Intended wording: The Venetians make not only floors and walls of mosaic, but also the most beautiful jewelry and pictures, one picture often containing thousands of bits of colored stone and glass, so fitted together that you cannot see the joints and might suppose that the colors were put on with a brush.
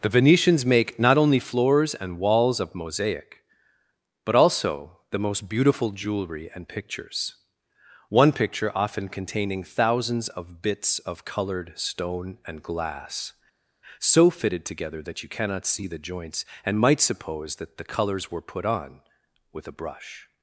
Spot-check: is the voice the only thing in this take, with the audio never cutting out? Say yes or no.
yes